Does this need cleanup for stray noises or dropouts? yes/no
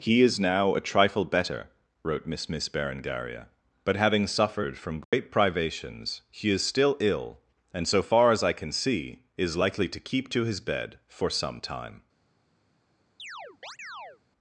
yes